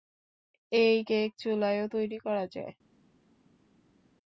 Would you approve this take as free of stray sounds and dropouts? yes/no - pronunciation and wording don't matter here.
yes